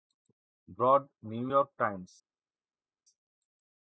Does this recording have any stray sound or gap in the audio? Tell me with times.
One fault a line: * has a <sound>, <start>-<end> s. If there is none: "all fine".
all fine